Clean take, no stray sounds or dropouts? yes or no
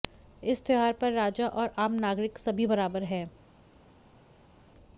yes